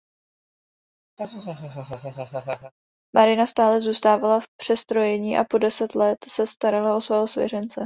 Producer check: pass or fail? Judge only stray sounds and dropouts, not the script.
fail